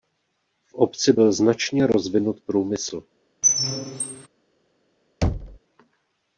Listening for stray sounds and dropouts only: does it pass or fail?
fail